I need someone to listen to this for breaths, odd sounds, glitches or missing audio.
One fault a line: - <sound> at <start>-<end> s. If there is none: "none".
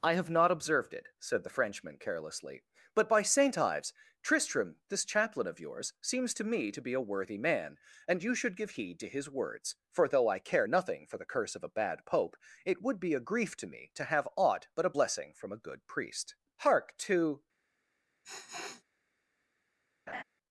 - sniff at 18.2-18.8 s
- laugh at 20.1-20.2 s